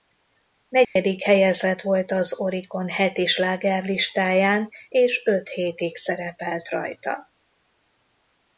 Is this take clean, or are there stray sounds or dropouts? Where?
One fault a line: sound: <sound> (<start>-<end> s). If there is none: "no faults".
sound: dropout (0.8-1.0 s)